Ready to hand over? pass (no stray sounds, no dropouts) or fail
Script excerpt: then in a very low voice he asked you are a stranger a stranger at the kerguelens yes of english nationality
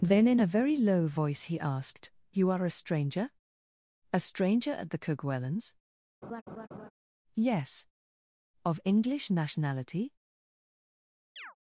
fail